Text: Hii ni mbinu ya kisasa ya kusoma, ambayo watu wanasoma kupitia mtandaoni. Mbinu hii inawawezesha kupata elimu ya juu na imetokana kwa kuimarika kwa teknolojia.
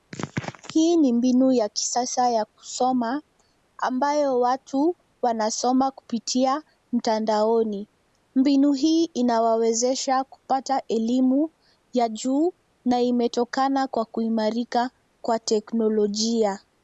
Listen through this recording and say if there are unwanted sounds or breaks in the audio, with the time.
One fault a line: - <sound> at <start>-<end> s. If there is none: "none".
none